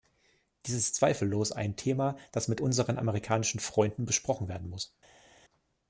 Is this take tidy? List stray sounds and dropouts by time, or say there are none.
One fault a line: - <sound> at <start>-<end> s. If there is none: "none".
none